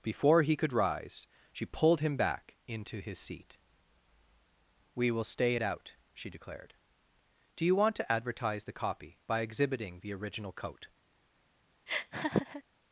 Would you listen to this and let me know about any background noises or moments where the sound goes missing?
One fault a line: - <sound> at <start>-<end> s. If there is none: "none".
- laugh at 11.9-12.6 s